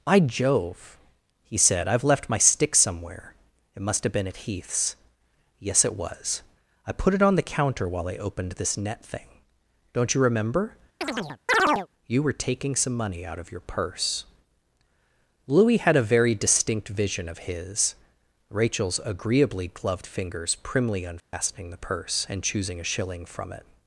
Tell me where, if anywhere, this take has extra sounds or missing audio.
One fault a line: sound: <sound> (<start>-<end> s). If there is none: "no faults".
sound: chirp (11.0-11.9 s)
sound: dropout (21.2-21.3 s)